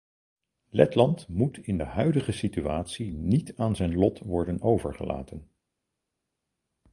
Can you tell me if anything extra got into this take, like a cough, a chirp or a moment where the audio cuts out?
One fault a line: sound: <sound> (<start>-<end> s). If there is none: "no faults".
no faults